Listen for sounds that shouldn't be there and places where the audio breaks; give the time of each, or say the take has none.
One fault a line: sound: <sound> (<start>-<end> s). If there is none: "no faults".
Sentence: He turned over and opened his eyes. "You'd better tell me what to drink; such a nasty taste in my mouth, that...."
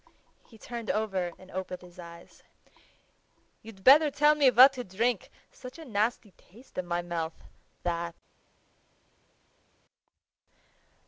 no faults